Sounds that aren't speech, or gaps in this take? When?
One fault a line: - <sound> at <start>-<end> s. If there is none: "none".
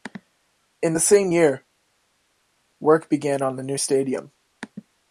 none